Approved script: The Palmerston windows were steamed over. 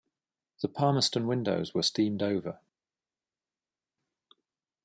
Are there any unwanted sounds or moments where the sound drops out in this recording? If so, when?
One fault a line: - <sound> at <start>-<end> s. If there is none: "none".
none